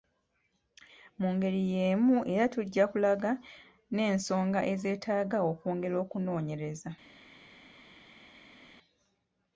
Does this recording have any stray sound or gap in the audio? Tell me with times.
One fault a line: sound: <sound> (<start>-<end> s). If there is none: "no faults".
no faults